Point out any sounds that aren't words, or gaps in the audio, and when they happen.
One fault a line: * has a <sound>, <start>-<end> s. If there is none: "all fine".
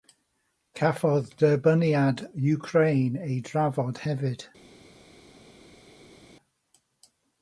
all fine